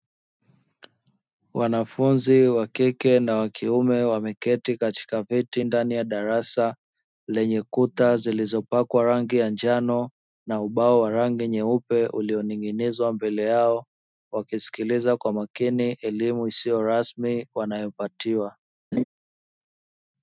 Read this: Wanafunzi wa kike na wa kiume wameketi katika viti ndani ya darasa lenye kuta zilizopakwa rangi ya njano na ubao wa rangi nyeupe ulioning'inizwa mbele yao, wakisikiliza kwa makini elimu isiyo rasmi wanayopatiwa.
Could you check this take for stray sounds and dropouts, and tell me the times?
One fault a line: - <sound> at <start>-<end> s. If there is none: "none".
- laugh at 18.9-19.0 s